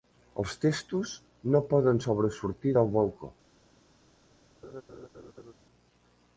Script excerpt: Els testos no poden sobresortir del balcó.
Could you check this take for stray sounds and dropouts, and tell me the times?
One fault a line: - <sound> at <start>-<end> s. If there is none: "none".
- laugh at 4.6-5.5 s